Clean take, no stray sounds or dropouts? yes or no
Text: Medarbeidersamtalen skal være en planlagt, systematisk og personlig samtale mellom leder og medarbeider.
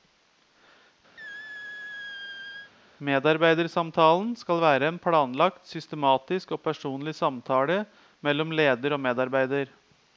no